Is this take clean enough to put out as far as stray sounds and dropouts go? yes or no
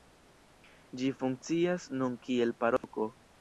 no